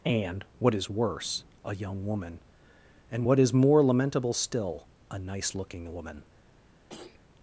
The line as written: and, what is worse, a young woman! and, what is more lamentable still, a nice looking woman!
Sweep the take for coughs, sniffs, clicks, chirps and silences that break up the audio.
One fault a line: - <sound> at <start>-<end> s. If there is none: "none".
- throat clearing at 6.9-7.2 s